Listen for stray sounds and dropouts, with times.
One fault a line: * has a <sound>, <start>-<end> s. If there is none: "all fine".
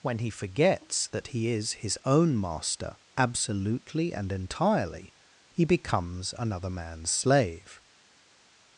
all fine